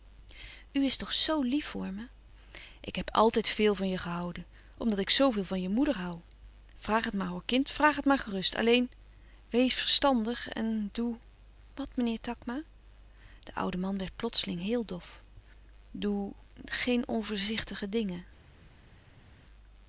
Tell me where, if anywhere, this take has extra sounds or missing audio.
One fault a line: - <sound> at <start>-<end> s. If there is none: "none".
none